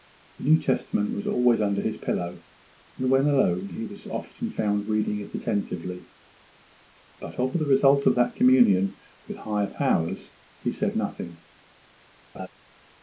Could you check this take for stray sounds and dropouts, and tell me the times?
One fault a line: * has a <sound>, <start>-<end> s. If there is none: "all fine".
* has a laugh, 12.3-12.5 s